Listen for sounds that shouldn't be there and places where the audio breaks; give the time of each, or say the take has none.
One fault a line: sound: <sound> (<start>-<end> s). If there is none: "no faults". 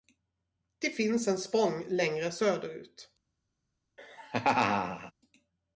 sound: laugh (4.0-5.1 s)